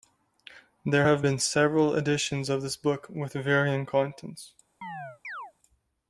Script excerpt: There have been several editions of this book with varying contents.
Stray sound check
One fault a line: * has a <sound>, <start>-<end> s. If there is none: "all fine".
* has a chirp, 4.8-5.5 s